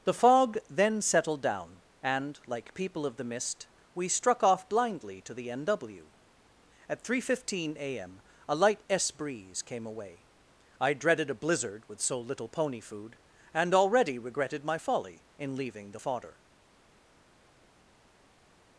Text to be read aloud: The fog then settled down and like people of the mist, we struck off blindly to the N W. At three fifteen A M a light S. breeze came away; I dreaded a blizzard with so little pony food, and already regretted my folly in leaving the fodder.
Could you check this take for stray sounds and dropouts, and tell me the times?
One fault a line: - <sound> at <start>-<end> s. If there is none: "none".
none